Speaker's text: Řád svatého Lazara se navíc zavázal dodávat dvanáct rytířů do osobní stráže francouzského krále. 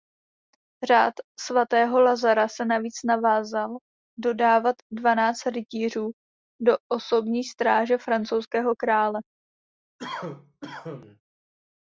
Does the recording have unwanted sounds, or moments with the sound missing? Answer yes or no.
yes